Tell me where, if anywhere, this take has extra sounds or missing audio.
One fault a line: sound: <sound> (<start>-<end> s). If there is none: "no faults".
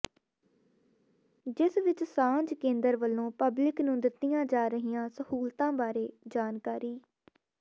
no faults